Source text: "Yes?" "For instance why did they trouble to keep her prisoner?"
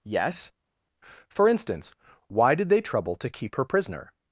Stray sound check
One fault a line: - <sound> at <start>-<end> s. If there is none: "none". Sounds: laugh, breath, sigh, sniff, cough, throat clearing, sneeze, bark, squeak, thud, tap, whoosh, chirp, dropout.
none